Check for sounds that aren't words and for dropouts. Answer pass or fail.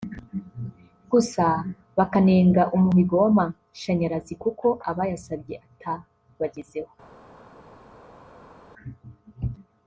pass